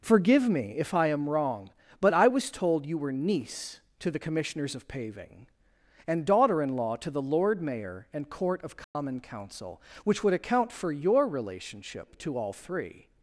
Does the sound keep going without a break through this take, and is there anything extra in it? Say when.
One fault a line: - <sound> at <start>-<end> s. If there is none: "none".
- dropout at 8.8-8.9 s